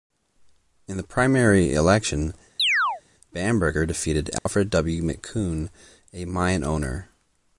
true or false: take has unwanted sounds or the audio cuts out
true